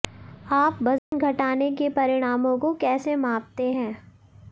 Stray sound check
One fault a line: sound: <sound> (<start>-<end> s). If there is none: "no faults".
sound: dropout (1.0-1.1 s)